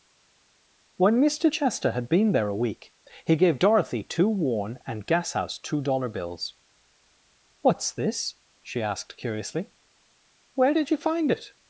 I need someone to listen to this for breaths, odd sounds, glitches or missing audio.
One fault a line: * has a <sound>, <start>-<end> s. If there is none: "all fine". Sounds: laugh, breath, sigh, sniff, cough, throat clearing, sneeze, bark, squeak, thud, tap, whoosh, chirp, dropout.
all fine